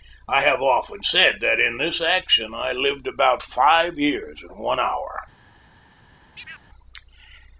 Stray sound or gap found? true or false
true